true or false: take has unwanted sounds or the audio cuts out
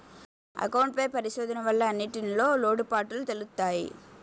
false